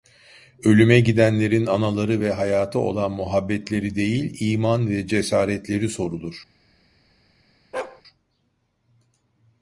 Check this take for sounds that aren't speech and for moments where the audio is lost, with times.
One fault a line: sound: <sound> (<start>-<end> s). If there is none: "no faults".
sound: bark (7.7-8.0 s)